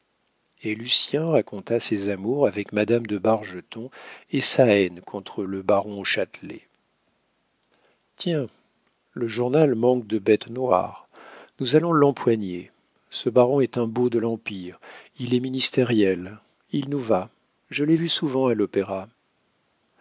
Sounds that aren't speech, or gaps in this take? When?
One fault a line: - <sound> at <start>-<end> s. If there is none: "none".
none